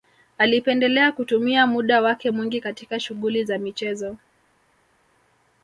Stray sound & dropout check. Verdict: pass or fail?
pass